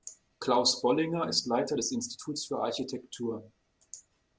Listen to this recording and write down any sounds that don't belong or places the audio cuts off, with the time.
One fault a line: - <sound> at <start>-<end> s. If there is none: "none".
none